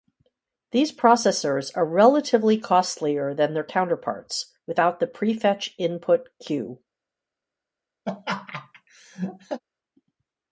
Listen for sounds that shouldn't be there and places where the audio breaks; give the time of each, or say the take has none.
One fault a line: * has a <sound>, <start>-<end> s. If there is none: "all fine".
* has a laugh, 8.1-9.6 s